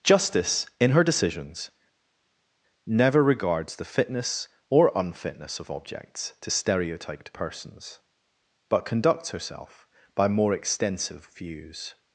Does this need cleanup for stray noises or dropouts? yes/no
no